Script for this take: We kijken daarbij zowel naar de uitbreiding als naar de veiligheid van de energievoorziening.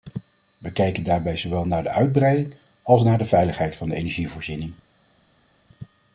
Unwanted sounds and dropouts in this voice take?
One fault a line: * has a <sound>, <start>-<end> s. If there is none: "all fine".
all fine